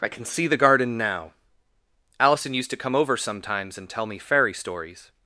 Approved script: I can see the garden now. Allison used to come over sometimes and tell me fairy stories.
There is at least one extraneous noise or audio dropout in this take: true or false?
false